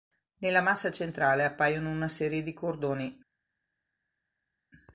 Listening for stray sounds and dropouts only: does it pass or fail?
pass